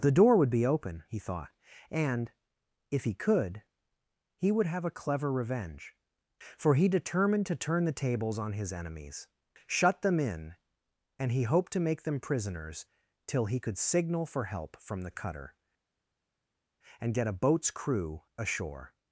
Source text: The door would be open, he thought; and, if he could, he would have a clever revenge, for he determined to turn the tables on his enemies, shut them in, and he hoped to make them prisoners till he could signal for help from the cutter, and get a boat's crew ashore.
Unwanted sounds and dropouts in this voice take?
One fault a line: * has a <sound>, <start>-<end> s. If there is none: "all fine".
all fine